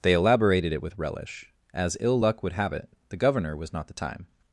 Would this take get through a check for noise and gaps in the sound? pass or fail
pass